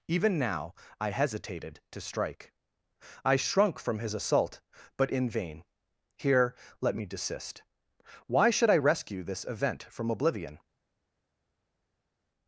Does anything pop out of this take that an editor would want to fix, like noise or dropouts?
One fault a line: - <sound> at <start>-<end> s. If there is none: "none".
none